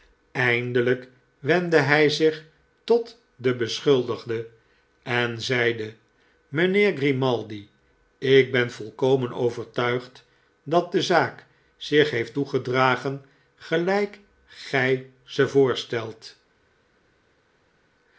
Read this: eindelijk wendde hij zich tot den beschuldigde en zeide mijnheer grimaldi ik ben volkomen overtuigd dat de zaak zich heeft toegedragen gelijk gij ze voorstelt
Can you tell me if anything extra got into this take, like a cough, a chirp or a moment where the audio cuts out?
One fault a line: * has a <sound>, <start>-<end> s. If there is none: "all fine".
all fine